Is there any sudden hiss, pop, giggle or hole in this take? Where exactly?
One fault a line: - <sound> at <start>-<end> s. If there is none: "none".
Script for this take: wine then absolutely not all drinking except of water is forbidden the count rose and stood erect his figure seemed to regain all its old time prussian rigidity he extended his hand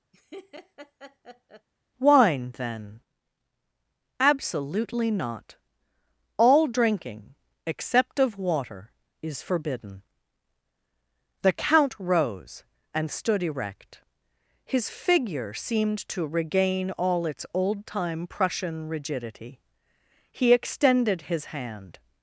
- laugh at 0.1-1.7 s